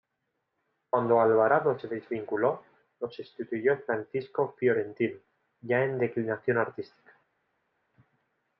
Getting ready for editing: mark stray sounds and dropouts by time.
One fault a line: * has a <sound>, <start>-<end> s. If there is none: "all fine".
all fine